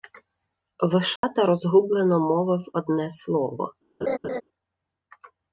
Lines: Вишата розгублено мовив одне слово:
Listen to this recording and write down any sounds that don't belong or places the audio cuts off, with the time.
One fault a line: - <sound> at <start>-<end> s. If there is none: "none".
- dropout at 1.2-1.2 s
- laugh at 4.0-4.4 s